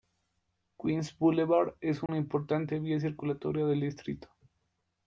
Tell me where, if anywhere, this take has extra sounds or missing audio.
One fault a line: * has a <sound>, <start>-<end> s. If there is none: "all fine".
* has a dropout, 2.1-2.1 s